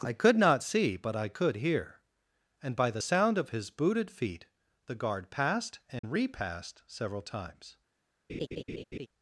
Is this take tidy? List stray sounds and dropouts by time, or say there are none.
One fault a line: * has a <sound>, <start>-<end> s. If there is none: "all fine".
* has a dropout, 6.0-6.0 s
* has a laugh, 8.3-9.1 s